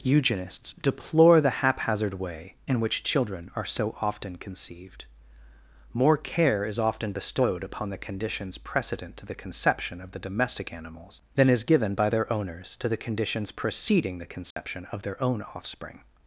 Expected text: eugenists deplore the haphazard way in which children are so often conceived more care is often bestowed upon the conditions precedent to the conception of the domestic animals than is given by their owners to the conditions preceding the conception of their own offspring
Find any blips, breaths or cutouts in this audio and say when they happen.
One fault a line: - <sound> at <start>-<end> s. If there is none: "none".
- dropout at 14.5-14.6 s